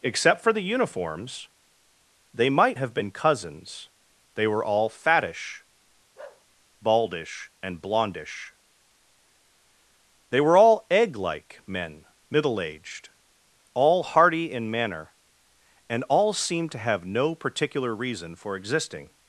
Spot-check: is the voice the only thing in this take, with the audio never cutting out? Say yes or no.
no